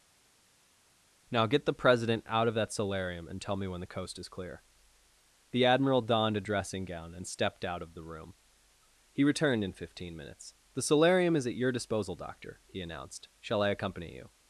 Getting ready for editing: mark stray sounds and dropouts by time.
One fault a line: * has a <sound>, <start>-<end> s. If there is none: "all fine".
all fine